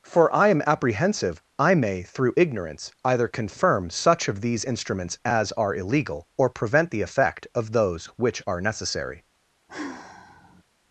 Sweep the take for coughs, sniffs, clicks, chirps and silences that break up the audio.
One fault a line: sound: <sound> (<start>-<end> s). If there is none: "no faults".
sound: sigh (9.7-10.6 s)